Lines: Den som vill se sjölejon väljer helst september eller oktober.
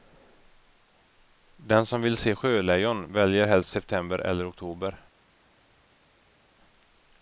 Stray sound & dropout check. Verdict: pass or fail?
pass